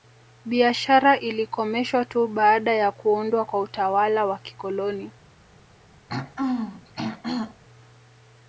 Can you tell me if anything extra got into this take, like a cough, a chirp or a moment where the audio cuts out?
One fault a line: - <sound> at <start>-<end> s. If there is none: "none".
- throat clearing at 6.1-7.6 s